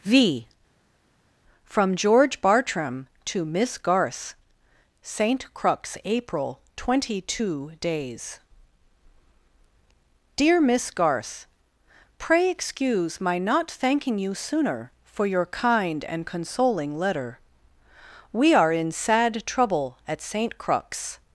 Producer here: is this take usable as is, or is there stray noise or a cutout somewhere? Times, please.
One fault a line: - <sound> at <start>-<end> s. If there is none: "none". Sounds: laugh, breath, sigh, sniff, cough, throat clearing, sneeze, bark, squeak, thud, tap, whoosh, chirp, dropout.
none